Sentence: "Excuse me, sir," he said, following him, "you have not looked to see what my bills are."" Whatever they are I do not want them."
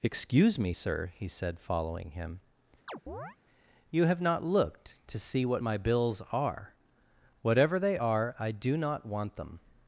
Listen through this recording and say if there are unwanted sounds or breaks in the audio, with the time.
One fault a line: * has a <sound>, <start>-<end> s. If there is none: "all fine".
* has a chirp, 2.9-3.4 s